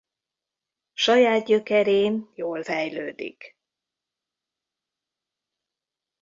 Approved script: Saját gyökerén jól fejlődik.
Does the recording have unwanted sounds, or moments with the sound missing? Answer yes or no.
no